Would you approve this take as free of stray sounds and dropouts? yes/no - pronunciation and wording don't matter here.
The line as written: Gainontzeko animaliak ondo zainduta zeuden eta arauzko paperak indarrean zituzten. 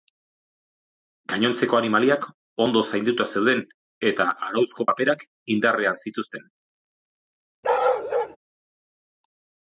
no